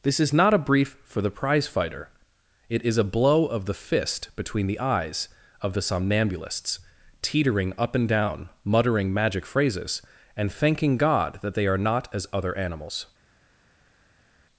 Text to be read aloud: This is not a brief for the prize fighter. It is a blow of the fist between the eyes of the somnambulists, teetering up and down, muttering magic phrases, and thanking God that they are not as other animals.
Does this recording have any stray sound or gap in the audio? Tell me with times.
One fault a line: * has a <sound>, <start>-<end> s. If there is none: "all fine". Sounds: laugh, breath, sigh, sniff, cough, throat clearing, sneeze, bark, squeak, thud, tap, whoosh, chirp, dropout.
all fine